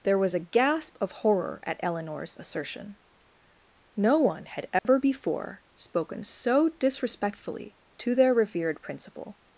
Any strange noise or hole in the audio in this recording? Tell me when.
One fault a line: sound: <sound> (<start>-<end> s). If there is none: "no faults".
sound: dropout (4.8-4.8 s)